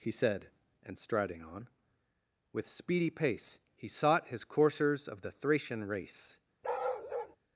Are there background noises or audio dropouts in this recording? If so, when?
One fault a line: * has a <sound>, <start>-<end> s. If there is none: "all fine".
* has a bark, 6.6-7.4 s